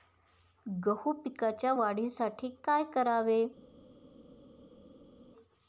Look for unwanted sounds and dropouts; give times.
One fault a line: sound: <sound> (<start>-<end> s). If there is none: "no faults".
no faults